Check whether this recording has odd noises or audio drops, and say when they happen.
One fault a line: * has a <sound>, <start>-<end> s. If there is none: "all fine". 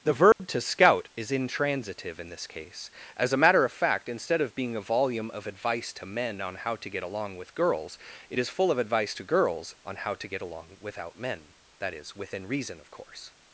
* has a dropout, 0.3-0.4 s